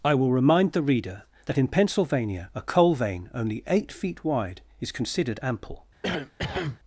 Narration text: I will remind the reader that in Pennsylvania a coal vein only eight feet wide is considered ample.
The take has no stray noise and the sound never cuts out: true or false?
false